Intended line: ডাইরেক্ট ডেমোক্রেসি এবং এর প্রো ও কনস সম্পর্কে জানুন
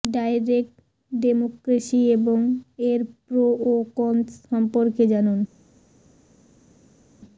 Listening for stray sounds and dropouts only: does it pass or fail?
pass